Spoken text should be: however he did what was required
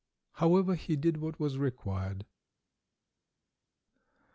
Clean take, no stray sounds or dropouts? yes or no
yes